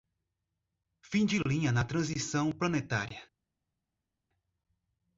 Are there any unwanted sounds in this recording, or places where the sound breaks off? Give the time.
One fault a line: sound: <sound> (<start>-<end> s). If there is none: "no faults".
no faults